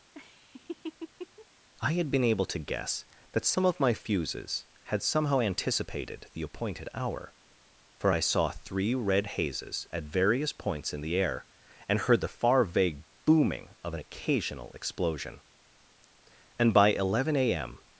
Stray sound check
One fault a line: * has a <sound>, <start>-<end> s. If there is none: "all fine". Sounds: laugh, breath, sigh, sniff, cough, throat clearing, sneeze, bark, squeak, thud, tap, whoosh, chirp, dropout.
* has a laugh, 0.1-1.5 s